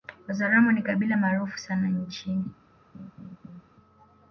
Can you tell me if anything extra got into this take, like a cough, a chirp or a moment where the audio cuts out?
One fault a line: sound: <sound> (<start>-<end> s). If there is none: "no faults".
sound: laugh (2.9-3.6 s)